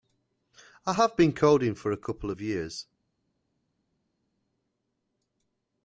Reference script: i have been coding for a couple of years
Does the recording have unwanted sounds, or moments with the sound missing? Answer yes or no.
no